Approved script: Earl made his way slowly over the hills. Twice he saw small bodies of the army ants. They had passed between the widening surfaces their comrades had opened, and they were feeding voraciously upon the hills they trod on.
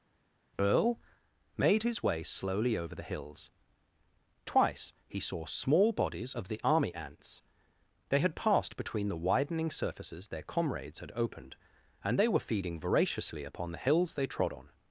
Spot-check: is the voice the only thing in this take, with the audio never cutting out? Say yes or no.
yes